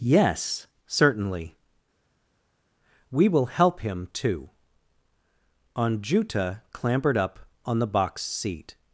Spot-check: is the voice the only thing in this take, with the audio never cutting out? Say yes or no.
yes